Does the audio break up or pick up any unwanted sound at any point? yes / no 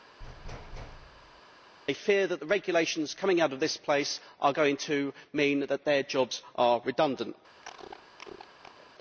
yes